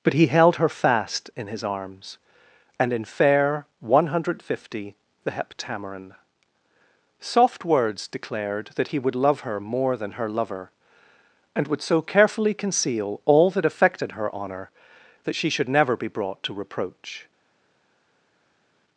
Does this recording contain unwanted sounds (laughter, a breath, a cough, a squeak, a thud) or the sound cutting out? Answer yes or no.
no